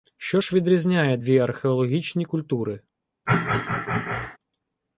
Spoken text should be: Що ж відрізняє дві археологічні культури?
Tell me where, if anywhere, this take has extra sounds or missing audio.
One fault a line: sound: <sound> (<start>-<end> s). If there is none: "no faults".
sound: throat clearing (3.3-4.4 s)